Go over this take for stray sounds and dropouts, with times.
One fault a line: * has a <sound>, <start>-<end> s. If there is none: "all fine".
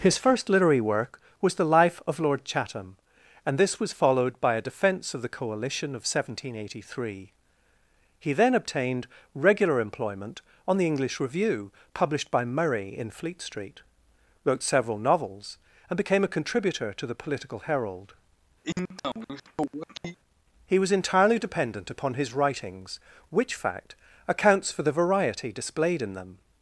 * has a sniff, 18.6-20.2 s